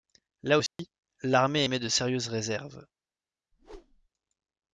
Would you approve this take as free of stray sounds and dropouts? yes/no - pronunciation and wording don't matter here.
no